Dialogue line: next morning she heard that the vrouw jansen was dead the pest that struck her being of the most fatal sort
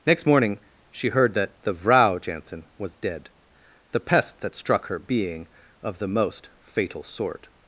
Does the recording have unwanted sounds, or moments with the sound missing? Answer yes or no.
no